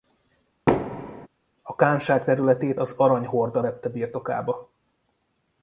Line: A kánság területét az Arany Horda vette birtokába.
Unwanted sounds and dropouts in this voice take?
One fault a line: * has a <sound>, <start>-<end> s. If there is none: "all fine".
* has a thud, 0.7-1.3 s